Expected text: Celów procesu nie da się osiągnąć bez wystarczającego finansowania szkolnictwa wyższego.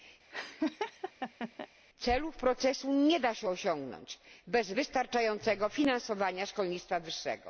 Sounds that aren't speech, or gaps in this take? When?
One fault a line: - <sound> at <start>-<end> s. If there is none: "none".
- laugh at 0.3-1.7 s